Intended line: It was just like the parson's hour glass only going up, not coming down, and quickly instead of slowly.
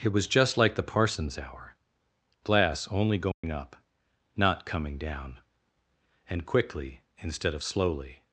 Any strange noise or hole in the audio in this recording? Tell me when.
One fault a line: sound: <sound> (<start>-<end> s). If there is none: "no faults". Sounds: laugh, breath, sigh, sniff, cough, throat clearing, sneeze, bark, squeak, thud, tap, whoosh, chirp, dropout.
sound: dropout (3.3-3.4 s)